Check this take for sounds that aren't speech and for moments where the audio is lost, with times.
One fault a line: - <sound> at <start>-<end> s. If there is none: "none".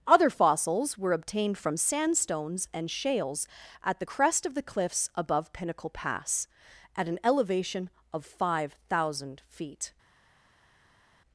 none